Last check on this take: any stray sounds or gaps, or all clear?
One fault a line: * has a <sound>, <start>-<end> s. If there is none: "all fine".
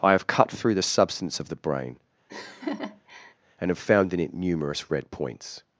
* has a laugh, 2.3-3.3 s